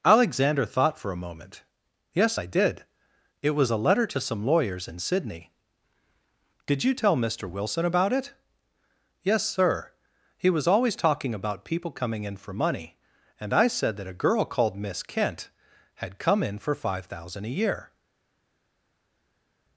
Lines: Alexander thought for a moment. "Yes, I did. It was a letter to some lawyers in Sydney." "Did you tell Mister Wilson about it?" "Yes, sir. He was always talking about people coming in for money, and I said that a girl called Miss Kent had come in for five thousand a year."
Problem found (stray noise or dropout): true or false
false